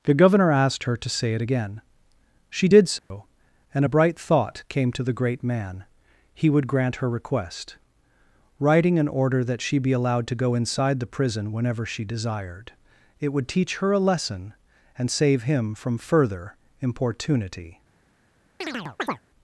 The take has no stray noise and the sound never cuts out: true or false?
false